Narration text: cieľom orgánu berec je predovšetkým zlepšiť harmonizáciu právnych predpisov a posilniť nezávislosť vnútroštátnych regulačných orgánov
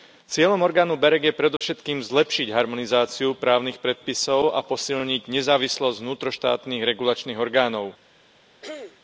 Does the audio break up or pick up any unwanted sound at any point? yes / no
yes